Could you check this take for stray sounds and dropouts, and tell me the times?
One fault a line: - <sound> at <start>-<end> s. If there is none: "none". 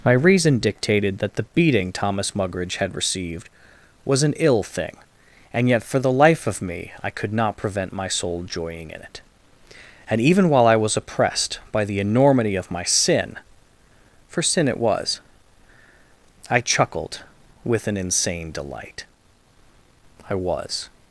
none